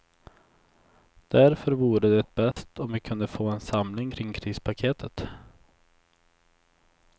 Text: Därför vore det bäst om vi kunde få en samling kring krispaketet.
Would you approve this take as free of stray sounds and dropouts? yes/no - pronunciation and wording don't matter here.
no